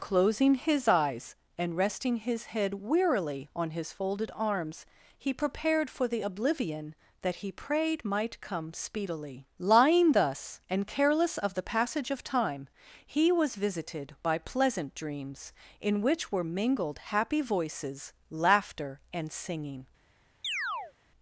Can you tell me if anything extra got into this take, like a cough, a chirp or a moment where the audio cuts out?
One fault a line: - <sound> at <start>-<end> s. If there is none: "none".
- chirp at 20.4-20.9 s